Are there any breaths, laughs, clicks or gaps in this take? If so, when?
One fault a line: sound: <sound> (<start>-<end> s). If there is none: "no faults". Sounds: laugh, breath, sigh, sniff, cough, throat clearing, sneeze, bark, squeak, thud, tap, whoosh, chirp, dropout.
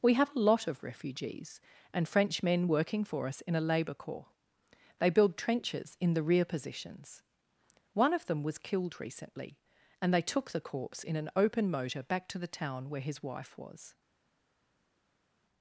no faults